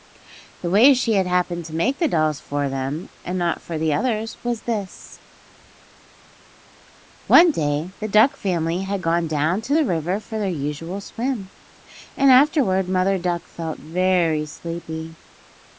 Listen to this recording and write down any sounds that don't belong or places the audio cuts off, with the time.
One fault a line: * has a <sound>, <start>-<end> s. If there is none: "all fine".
all fine